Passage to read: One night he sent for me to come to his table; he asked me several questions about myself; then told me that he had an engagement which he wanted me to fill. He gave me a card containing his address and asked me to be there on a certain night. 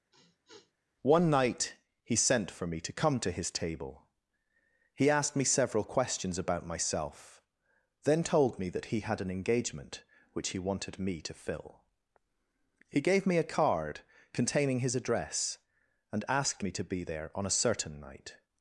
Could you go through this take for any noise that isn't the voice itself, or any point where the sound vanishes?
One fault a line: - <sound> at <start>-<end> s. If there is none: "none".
- sniff at 0.1-0.7 s